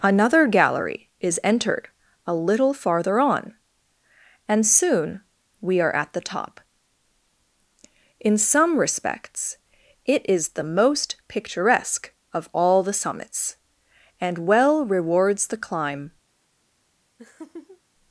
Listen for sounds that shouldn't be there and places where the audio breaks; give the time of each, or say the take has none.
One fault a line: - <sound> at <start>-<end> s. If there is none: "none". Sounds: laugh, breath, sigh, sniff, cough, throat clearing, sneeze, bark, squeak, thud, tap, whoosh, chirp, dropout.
- laugh at 17.2-17.8 s